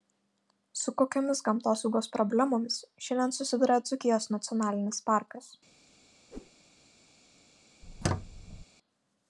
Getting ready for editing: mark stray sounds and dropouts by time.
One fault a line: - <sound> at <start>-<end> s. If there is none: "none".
- whoosh at 6.3-6.5 s
- squeak at 7.8-8.7 s